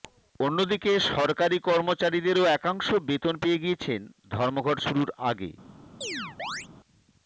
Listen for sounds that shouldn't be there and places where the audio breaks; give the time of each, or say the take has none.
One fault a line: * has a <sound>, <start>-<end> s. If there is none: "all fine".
* has a chirp, 6.0-6.7 s